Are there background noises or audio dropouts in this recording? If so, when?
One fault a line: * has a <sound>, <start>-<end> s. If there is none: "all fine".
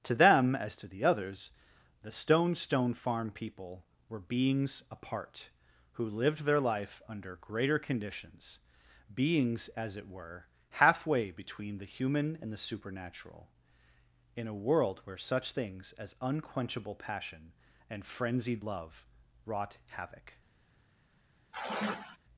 * has a sigh, 21.5-22.2 s